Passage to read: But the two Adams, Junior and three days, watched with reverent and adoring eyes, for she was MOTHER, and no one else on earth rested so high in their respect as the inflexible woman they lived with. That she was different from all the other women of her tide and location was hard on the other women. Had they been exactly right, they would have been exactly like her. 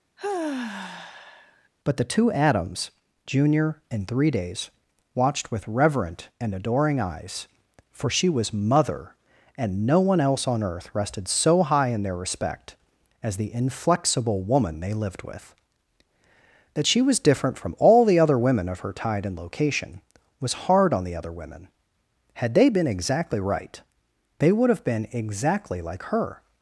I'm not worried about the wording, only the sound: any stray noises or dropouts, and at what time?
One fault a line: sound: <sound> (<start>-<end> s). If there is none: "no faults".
sound: sigh (0.2-1.7 s)